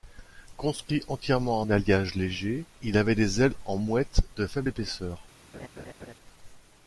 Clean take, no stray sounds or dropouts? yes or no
no